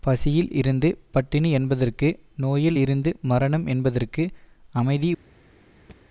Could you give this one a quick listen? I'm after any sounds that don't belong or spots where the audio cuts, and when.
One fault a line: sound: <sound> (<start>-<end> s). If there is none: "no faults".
sound: thud (5.9-6.0 s)